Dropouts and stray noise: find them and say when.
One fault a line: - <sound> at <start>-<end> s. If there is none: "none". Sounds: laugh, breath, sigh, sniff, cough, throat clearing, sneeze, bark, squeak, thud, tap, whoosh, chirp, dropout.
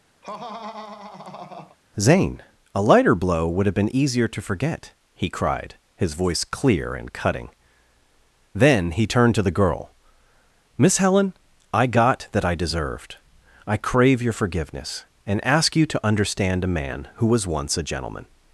- laugh at 0.2-1.8 s